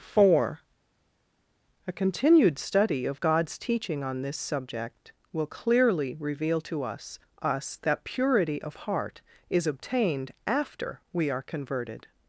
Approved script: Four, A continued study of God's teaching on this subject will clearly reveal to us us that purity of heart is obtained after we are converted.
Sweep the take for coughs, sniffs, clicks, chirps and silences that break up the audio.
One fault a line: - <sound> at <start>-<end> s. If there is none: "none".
none